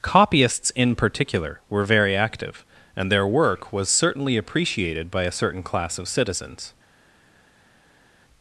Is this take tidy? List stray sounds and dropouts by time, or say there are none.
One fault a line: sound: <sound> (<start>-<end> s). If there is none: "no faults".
no faults